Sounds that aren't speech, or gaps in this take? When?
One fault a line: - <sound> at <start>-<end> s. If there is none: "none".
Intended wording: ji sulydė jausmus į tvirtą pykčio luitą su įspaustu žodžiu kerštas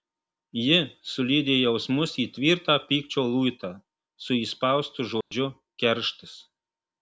- dropout at 5.2-5.3 s